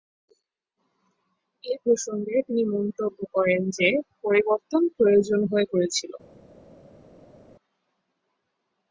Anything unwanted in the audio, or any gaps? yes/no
no